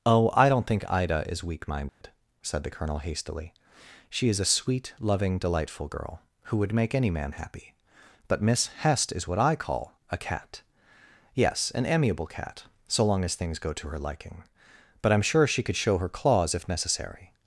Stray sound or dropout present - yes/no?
yes